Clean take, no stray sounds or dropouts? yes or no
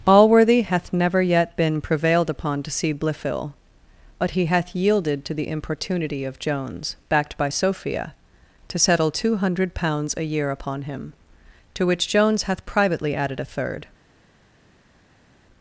yes